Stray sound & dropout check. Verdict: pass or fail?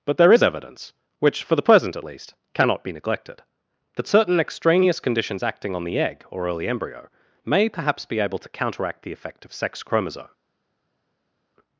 pass